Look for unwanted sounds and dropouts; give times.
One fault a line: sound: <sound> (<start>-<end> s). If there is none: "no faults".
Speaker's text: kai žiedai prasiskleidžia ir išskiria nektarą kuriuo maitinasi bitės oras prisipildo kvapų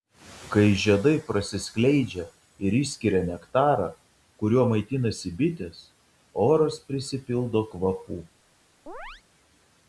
sound: chirp (8.9-9.2 s)